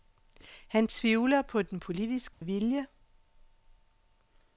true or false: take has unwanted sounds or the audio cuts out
true